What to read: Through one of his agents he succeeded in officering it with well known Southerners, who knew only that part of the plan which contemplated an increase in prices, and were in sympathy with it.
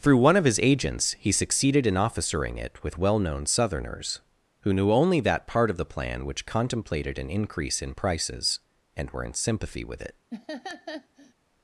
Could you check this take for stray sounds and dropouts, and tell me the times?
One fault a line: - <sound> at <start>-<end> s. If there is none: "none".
- laugh at 10.3-11.3 s